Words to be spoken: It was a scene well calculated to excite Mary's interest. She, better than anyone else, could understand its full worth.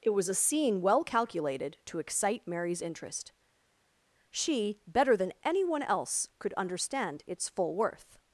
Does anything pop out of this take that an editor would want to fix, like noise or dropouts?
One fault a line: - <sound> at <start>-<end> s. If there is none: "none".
none